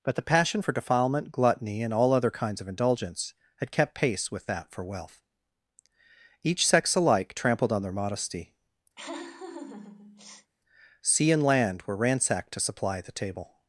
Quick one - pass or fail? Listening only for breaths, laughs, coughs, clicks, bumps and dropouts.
fail